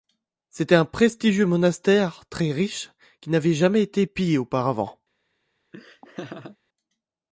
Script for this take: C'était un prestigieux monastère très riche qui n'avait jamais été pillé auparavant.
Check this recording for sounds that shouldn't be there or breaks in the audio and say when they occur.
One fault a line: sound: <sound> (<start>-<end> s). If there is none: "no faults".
sound: laugh (5.7-6.6 s)